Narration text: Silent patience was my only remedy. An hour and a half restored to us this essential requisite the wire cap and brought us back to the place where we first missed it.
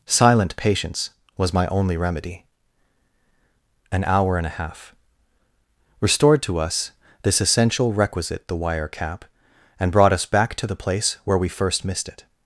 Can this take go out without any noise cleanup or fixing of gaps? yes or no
yes